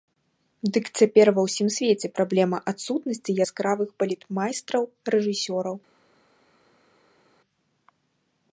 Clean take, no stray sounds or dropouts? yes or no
yes